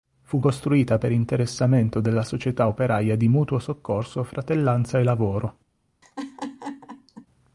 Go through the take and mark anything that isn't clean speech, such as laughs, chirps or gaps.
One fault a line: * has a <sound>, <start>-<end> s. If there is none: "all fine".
* has a laugh, 6.0-7.3 s